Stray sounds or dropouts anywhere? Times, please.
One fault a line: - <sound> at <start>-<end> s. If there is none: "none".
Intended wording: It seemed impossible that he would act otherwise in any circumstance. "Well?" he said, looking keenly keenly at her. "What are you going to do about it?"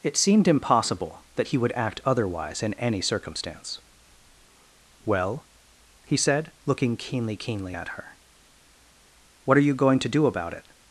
none